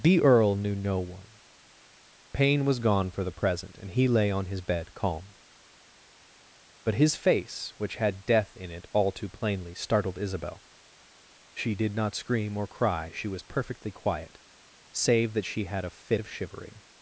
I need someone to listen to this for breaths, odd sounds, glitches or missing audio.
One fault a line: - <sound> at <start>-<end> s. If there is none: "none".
none